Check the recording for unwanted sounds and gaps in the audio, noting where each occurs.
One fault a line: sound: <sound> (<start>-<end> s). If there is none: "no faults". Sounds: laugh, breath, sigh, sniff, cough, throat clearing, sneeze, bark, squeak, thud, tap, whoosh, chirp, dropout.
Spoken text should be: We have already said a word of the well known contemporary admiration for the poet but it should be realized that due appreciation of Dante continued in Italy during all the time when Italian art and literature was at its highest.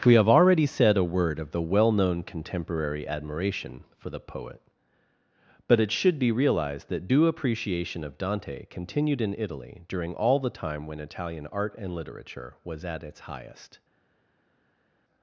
no faults